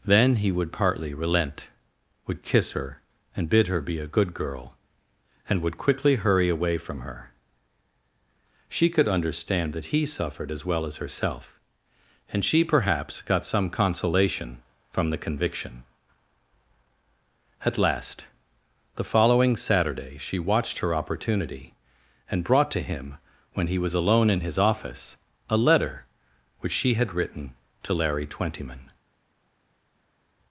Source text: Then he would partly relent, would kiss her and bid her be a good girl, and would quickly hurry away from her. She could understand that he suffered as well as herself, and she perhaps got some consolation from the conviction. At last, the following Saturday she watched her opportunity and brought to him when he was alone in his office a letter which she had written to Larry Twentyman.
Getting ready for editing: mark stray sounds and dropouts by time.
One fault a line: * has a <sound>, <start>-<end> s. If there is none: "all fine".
all fine